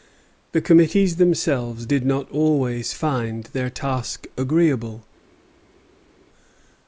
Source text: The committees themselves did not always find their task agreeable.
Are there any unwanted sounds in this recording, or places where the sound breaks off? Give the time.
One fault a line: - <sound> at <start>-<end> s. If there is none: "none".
none